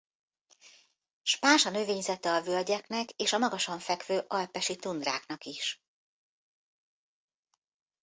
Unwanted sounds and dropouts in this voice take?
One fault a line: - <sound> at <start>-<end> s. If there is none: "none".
none